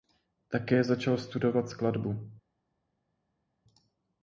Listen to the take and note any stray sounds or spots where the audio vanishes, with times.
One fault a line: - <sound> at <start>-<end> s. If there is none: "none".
none